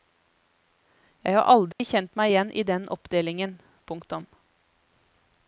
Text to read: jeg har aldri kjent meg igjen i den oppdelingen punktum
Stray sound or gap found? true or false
true